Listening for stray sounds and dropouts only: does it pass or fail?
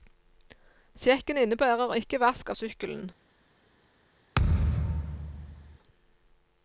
fail